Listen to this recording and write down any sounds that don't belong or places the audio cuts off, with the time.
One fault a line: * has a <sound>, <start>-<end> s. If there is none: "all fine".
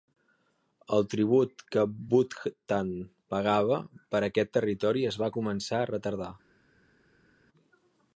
all fine